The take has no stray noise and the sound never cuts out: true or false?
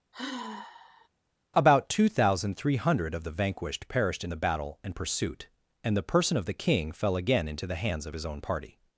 false